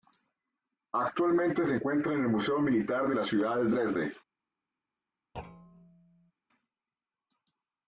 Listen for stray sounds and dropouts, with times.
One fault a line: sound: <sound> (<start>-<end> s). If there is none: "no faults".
sound: thud (5.3-6.3 s)